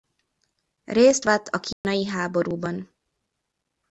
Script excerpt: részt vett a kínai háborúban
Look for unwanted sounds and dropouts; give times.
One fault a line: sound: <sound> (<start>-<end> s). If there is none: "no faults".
sound: dropout (1.7-1.8 s)